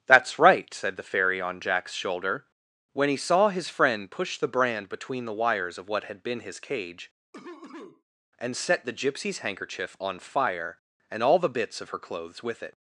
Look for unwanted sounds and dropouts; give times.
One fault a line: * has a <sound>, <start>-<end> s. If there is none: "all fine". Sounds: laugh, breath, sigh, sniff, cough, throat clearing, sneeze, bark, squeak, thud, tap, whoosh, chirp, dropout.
* has a cough, 7.3-8.0 s